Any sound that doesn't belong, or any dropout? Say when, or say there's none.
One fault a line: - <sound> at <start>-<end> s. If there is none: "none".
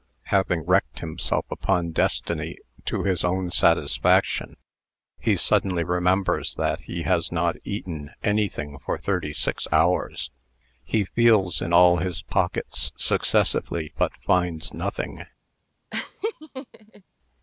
- laugh at 15.9-17.0 s